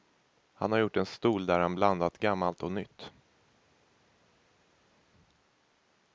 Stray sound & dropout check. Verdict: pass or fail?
pass